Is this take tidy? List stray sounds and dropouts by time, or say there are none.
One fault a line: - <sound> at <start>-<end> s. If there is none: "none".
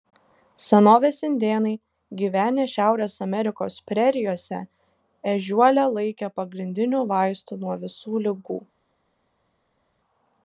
none